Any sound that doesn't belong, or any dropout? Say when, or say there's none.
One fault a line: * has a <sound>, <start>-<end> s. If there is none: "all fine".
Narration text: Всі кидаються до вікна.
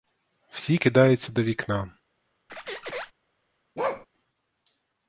* has a squeak, 2.5-3.1 s
* has a bark, 3.8-4.1 s